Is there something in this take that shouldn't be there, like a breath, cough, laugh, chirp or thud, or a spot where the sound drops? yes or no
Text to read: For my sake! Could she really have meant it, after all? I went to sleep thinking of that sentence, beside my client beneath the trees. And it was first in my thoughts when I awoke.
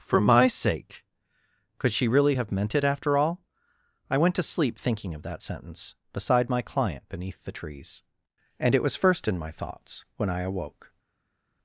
no